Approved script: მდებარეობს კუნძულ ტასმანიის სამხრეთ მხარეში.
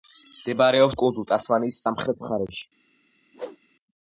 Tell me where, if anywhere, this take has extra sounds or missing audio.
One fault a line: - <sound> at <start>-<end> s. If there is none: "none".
- whoosh at 3.3-3.6 s